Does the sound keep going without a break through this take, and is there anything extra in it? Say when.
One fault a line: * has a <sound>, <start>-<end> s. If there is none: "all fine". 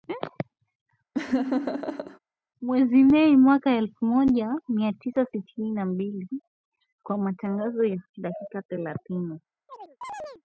* has a laugh, 1.1-2.2 s
* has a chirp, 9.7-10.4 s